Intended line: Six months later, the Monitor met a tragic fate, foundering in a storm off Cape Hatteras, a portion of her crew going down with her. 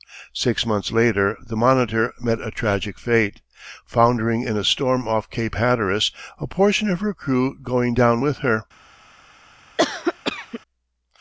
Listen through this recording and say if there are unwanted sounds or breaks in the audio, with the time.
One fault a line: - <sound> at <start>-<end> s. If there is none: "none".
- cough at 9.8-10.6 s